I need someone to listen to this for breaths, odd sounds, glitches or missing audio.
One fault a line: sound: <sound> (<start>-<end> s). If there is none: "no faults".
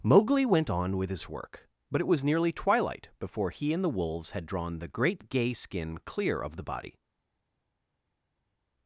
no faults